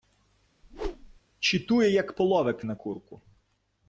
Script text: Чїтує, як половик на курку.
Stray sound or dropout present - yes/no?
yes